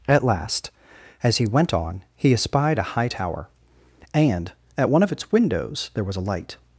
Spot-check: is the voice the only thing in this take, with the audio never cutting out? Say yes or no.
yes